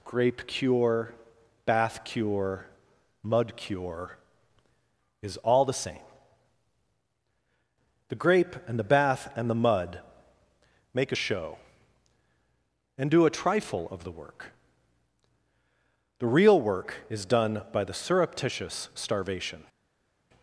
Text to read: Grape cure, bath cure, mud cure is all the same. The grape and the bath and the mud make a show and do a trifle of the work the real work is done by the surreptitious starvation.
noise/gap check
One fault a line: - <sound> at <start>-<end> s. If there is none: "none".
none